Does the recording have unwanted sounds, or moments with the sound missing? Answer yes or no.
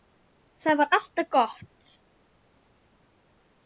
no